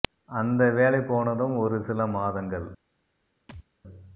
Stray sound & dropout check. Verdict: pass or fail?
fail